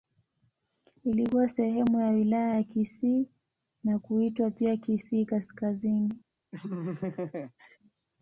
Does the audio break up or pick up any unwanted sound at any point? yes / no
yes